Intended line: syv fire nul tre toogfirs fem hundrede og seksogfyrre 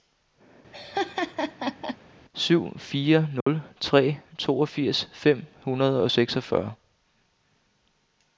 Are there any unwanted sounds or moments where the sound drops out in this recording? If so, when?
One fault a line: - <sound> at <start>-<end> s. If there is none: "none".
- laugh at 0.7-2.0 s
- dropout at 3.4-3.5 s